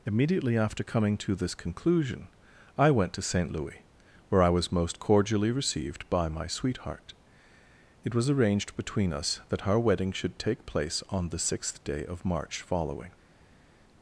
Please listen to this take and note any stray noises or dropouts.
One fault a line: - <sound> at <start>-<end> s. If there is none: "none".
none